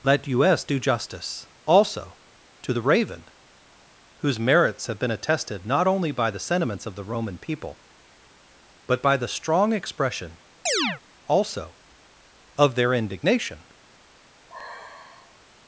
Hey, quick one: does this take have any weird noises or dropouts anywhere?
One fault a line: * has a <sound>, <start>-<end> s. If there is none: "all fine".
* has a chirp, 10.7-11.0 s
* has a sigh, 14.5-15.4 s